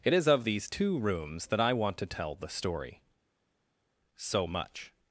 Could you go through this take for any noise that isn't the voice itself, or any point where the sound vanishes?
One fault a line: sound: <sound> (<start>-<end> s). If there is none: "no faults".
no faults